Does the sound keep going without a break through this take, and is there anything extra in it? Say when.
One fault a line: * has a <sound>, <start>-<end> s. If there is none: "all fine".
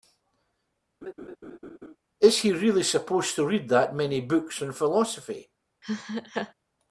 * has a laugh, 1.0-2.0 s
* has a laugh, 5.8-6.5 s